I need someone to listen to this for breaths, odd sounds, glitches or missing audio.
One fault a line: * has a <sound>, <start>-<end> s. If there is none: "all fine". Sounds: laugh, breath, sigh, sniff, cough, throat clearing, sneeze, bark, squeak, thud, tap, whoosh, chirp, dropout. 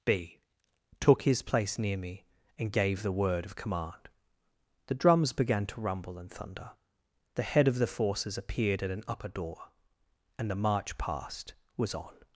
all fine